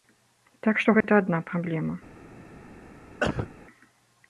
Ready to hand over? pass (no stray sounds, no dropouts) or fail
fail